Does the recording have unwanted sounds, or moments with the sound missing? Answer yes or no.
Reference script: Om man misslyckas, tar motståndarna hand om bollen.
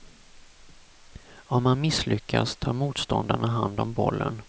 no